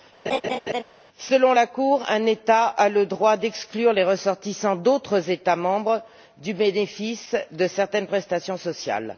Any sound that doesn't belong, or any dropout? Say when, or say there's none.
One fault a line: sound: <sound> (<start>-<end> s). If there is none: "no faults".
sound: laugh (0.3-0.8 s)